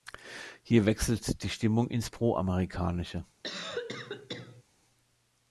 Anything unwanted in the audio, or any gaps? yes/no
yes